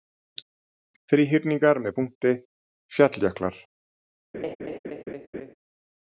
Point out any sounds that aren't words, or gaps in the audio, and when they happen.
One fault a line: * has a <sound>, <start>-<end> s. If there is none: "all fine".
* has a laugh, 4.3-5.5 s